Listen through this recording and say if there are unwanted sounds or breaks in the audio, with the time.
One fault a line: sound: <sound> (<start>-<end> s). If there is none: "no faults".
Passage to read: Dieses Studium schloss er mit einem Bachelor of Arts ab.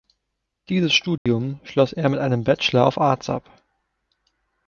sound: dropout (1.2-1.3 s)